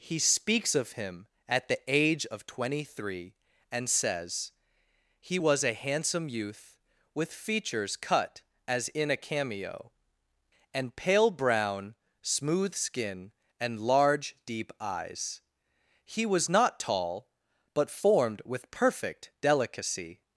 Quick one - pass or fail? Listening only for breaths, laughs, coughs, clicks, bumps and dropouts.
pass